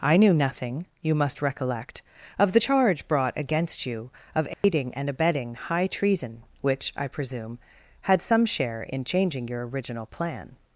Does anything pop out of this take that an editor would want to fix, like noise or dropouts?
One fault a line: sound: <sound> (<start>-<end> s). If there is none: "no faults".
sound: dropout (4.5-4.6 s)